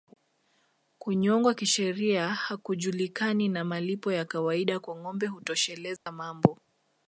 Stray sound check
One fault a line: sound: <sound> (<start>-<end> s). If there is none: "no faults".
sound: dropout (6.0-6.1 s)